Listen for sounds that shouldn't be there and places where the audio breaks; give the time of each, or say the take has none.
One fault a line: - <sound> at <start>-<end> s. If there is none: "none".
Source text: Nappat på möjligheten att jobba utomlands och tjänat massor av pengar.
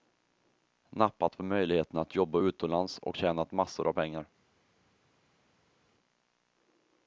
none